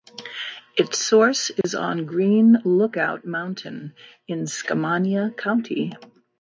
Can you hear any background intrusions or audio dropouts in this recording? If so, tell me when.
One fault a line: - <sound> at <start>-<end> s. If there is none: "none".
- dropout at 1.6-1.6 s